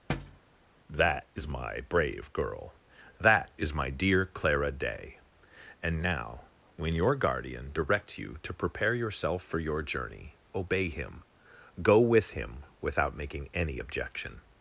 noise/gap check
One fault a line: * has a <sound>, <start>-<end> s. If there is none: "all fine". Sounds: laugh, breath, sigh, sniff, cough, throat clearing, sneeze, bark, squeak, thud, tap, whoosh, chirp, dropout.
* has a thud, 0.1-0.4 s